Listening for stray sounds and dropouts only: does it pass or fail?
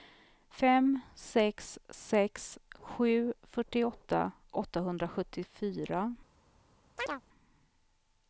fail